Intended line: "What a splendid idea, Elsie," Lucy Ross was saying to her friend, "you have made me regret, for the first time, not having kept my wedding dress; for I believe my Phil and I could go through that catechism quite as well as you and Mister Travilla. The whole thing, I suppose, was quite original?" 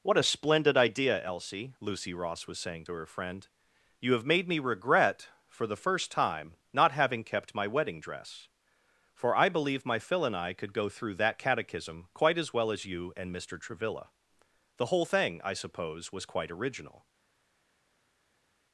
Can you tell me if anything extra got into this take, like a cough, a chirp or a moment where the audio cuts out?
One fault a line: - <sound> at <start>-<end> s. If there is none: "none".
none